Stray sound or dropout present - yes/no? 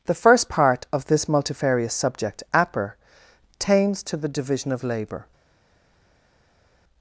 no